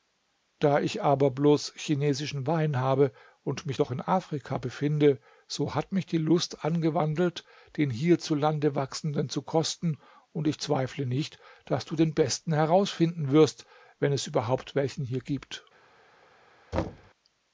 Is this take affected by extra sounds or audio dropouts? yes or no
yes